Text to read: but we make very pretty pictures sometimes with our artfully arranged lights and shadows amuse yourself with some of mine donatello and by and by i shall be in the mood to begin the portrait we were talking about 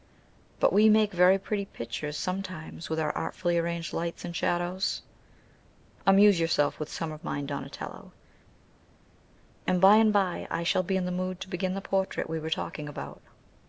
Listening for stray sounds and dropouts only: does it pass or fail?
pass